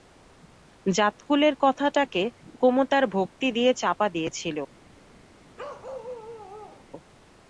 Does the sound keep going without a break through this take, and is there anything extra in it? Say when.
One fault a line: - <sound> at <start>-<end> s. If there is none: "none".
- bark at 5.6-6.9 s